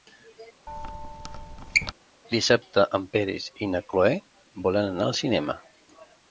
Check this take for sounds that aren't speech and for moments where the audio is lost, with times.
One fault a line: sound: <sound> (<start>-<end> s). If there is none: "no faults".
sound: squeak (0.7-1.9 s)